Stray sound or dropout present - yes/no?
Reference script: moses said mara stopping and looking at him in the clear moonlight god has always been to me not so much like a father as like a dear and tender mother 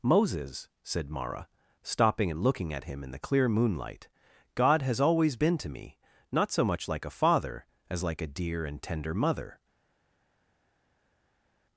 no